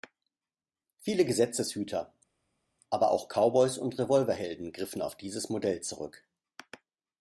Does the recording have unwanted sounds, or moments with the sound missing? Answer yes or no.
no